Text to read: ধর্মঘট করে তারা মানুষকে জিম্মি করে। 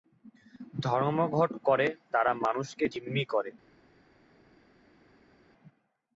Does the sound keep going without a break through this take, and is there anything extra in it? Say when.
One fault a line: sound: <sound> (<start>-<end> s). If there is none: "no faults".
no faults